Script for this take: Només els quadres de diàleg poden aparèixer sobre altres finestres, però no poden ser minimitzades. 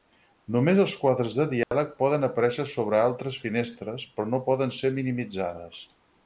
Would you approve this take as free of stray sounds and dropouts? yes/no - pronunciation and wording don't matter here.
no